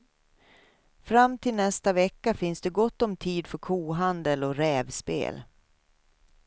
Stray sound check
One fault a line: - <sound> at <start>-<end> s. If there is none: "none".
none